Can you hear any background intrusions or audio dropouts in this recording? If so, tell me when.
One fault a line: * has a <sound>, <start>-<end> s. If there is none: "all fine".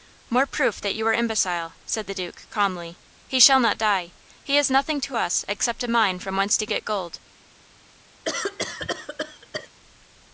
* has a cough, 8.2-9.7 s